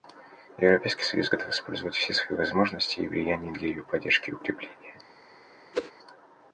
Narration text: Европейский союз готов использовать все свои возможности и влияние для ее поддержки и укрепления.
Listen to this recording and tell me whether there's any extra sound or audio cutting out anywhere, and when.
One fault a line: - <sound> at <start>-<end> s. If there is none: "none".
- whoosh at 5.7-5.9 s